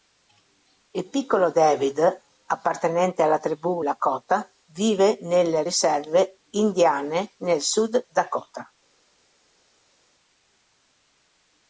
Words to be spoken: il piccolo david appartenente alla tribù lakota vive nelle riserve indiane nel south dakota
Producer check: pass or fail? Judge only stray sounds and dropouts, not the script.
pass